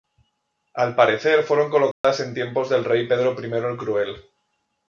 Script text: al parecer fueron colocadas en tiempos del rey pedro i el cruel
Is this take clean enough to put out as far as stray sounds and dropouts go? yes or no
no